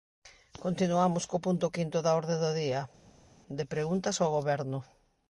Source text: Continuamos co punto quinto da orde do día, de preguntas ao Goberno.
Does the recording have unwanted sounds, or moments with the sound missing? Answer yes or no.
no